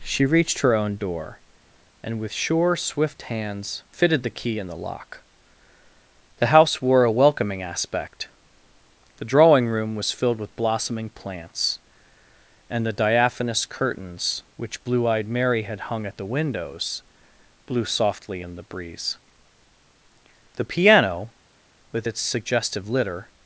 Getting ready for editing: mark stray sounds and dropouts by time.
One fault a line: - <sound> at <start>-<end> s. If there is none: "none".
none